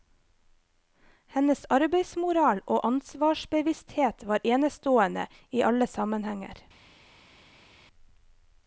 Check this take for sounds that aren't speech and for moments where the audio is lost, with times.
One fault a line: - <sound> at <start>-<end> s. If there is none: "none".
none